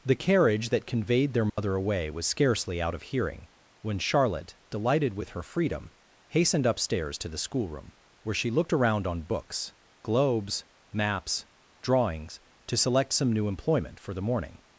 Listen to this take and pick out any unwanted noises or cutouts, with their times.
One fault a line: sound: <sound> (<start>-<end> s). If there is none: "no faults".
sound: dropout (1.5-1.6 s)